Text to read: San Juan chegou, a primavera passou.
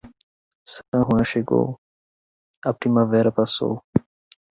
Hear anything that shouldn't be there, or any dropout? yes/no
no